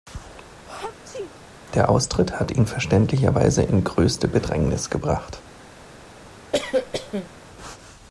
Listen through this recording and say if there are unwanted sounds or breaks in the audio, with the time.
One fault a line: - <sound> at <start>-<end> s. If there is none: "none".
- sneeze at 0.7-1.3 s
- cough at 6.5-7.3 s